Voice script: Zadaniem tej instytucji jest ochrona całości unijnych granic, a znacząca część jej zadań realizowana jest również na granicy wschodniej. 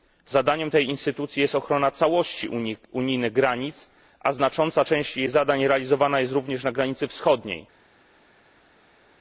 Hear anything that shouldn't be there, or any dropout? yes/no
no